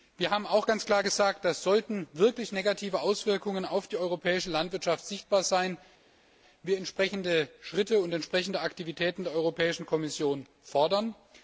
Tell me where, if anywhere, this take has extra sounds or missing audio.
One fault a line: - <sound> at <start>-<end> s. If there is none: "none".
none